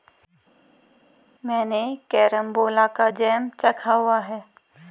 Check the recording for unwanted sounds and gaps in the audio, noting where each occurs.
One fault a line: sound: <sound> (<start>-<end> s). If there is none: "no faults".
no faults